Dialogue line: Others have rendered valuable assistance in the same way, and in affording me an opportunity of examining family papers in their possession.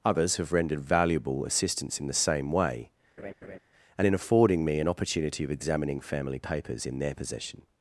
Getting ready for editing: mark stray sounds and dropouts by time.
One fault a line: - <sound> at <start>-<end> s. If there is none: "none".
- laugh at 3.2-3.6 s